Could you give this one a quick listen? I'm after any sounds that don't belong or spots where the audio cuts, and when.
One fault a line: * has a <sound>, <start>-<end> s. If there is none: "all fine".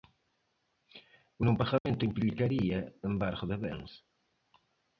* has a dropout, 1.8-1.9 s